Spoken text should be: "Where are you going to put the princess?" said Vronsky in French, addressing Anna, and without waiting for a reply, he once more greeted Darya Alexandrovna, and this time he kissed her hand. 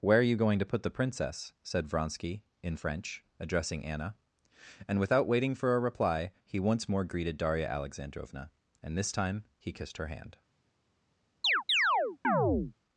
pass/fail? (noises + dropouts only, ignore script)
fail